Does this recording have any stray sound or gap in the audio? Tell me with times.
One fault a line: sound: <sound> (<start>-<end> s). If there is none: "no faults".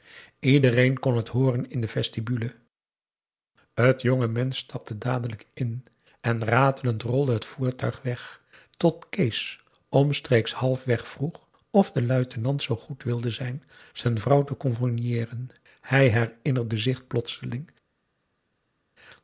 no faults